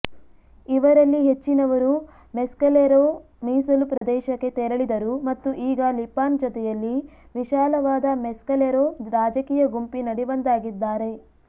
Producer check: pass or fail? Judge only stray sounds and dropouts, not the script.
fail